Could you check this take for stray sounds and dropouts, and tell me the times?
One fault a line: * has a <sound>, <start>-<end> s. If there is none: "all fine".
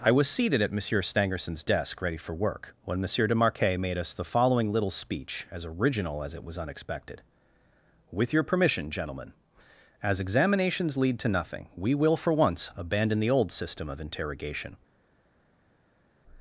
all fine